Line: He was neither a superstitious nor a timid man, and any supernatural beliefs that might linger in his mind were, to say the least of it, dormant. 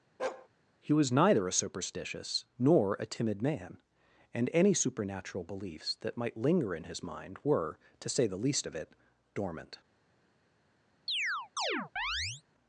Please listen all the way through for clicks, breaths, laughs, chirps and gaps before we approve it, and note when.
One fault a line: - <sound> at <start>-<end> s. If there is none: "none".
- bark at 0.2-0.5 s
- chirp at 11.1-12.4 s